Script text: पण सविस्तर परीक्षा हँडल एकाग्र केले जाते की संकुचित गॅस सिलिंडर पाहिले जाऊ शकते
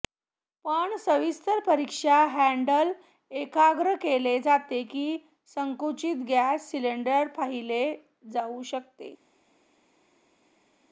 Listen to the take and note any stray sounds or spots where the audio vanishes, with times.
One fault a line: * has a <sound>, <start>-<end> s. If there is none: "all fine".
all fine